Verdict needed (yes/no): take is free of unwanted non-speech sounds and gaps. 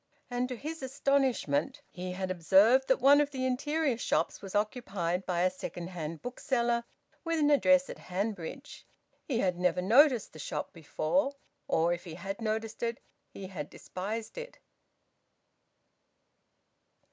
yes